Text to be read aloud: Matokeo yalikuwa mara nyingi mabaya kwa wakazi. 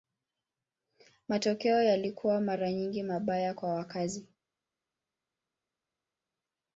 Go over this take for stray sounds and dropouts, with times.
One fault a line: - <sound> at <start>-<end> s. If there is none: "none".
none